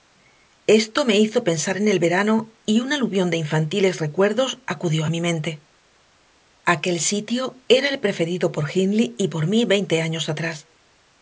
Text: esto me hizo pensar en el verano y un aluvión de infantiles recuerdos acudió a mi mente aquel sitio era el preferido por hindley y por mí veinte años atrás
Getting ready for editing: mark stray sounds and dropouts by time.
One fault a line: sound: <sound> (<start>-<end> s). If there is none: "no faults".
no faults